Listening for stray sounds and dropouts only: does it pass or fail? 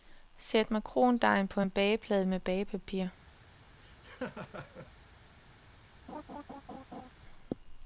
fail